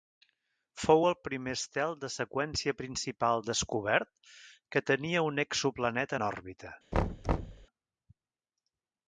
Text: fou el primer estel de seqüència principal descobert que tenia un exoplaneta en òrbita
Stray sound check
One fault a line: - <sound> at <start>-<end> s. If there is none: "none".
- thud at 6.9-7.7 s